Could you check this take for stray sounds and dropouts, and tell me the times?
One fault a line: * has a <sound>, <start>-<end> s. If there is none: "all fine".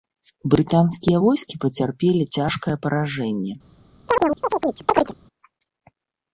* has a chirp, 4.1-5.1 s